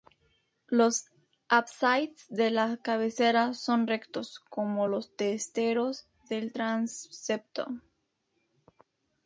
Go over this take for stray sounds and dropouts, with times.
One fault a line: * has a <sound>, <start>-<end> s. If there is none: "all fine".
all fine